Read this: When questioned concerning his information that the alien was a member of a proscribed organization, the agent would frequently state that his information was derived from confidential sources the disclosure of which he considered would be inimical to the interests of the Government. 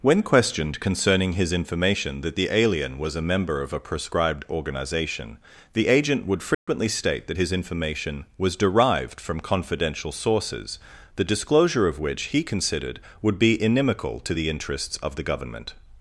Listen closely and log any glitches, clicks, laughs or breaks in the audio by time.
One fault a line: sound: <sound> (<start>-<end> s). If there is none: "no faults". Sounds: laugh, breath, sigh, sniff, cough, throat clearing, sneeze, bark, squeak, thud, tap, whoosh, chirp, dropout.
sound: dropout (6.5-6.7 s)